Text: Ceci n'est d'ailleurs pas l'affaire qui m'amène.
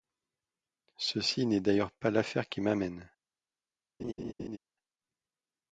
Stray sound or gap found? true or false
true